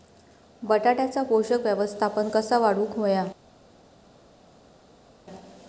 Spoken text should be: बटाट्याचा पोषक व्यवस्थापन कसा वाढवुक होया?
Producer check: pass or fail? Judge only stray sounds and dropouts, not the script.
pass